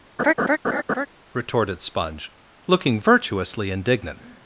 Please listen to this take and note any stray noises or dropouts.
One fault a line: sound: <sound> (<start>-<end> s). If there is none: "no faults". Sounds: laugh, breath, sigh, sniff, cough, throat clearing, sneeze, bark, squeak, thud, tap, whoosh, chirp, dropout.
sound: laugh (0.2-1.1 s)